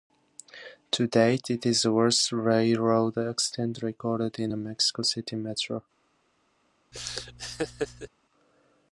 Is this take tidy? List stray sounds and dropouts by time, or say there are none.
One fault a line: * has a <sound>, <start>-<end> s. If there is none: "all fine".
* has a laugh, 6.9-8.1 s